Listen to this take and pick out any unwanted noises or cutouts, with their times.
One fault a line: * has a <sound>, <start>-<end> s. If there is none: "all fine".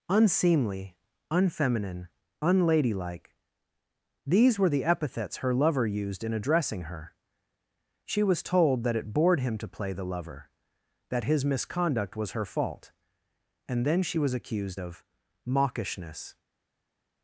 all fine